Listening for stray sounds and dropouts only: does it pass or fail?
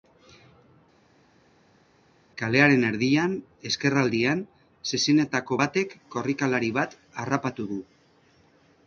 pass